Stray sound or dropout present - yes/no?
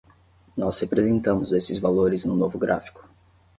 no